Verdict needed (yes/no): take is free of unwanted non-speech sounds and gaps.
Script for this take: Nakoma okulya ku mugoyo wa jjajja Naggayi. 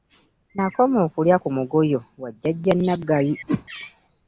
no